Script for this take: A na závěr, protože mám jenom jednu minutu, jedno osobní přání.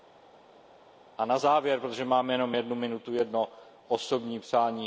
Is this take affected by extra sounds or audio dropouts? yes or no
no